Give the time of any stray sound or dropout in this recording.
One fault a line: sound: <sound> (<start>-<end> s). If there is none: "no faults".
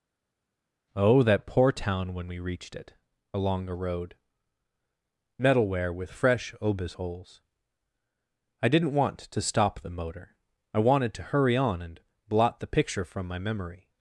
no faults